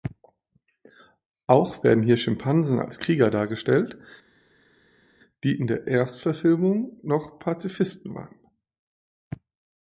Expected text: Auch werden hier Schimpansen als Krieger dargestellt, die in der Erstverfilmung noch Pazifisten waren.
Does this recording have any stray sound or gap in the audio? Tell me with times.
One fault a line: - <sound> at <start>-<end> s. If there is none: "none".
none